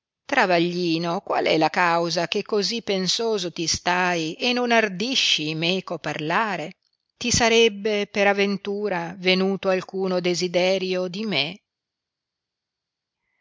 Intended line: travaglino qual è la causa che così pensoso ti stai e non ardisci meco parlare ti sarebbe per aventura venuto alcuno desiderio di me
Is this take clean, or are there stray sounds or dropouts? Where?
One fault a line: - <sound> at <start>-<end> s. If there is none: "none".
none